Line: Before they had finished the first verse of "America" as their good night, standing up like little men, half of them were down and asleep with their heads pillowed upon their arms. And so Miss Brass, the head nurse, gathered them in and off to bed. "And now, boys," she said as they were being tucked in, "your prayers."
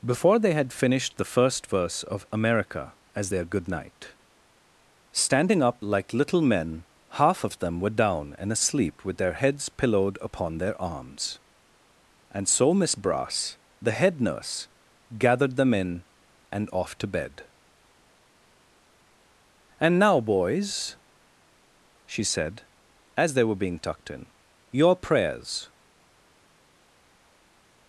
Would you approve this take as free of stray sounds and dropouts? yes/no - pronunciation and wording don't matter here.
yes